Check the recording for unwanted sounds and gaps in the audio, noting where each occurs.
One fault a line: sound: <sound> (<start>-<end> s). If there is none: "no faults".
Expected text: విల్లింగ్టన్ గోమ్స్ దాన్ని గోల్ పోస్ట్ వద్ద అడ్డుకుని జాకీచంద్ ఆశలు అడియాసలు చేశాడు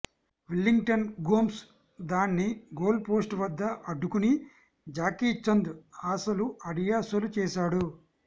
no faults